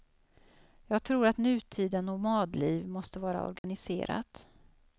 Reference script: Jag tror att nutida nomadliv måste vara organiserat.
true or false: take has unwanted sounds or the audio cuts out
true